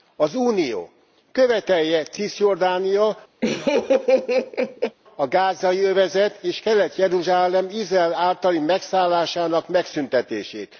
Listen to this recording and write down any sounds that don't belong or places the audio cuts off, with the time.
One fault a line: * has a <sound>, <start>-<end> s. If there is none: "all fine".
* has a laugh, 3.4-5.0 s